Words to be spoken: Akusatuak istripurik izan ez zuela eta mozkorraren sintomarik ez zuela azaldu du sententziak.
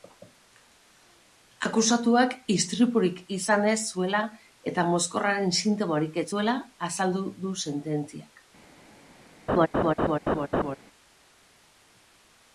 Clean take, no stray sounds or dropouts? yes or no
no